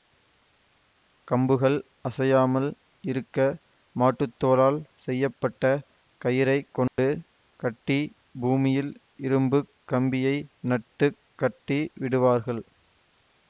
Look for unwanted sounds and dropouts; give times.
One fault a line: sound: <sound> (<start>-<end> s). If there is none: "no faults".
sound: dropout (6.9-7.0 s)